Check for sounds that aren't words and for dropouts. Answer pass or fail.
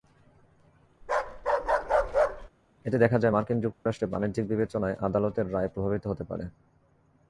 fail